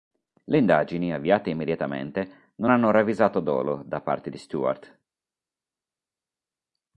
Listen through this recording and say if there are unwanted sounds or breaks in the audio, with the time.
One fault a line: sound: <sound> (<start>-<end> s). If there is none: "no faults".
no faults